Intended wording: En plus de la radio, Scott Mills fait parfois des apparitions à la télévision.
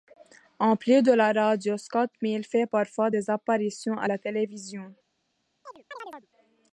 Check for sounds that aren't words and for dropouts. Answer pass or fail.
fail